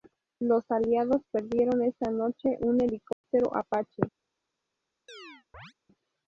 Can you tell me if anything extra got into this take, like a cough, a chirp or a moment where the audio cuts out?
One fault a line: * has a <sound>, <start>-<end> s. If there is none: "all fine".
* has a dropout, 3.1-3.2 s
* has a chirp, 5.1-5.7 s